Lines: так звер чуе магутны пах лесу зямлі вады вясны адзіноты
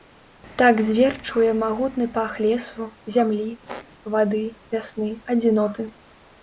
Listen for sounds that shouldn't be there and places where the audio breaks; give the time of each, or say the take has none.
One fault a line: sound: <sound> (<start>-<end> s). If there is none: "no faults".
sound: squeak (3.7-3.9 s)